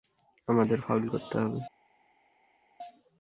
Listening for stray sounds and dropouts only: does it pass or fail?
pass